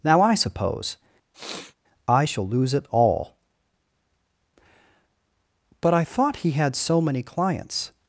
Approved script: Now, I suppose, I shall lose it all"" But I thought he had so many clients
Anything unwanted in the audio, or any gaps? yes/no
yes